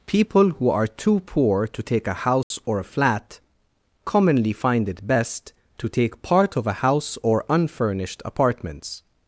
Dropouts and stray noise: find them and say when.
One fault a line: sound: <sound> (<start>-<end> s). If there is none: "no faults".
sound: dropout (2.4-2.5 s)